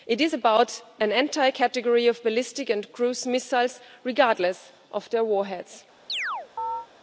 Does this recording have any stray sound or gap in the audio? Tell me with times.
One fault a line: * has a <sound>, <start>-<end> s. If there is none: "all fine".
* has a chirp, 6.1-6.9 s